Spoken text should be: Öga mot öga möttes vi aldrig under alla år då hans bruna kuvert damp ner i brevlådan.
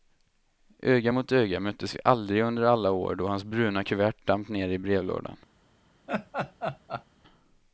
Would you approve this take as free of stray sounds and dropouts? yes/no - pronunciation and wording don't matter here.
no